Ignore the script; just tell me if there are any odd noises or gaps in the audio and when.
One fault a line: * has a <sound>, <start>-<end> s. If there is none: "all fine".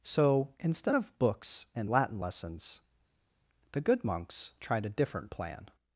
all fine